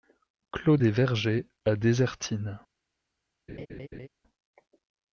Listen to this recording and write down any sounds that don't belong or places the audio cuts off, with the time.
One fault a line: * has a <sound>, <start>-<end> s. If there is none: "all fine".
* has a laugh, 3.5-4.1 s